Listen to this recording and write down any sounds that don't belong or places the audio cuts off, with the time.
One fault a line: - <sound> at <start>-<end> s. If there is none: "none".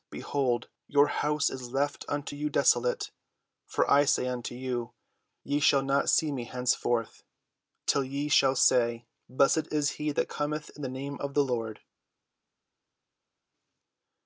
none